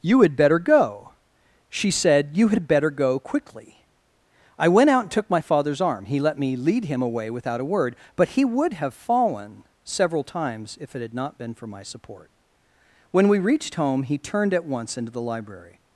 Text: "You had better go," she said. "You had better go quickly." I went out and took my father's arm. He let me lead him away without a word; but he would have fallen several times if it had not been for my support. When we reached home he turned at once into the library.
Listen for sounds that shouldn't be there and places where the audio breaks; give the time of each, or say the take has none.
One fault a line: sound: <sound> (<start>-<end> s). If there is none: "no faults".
no faults